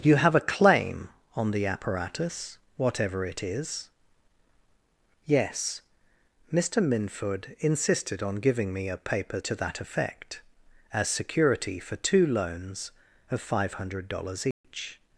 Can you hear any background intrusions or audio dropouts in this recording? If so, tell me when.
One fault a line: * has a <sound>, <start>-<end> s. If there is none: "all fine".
* has a dropout, 14.5-14.6 s